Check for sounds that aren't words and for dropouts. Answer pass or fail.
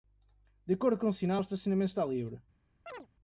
fail